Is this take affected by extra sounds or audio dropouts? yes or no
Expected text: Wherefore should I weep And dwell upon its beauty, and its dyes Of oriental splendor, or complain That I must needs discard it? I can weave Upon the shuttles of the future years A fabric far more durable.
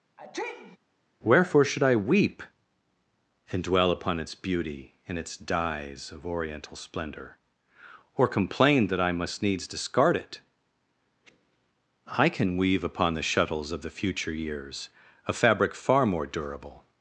yes